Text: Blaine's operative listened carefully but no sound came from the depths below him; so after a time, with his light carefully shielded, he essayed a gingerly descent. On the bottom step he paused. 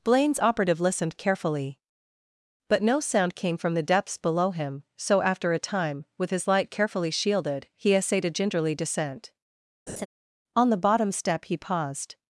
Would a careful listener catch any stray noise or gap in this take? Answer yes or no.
yes